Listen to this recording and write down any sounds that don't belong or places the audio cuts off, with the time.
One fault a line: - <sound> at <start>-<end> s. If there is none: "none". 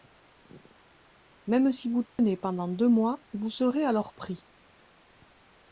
- dropout at 2.1-2.2 s